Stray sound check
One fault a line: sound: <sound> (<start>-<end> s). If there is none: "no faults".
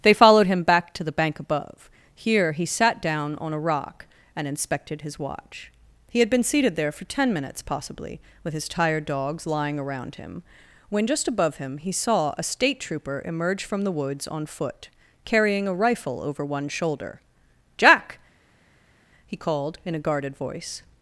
no faults